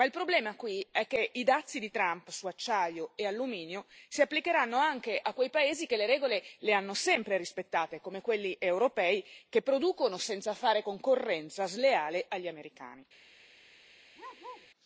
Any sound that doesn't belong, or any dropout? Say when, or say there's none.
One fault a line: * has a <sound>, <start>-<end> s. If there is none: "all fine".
* has a bark, 14.2-14.7 s